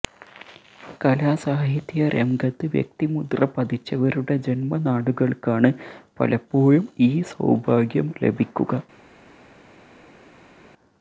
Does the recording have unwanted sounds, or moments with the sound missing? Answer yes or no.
no